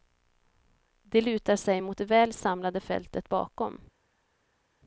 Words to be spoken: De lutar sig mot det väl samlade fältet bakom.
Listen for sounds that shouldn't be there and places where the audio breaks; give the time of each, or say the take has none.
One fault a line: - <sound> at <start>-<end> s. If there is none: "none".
none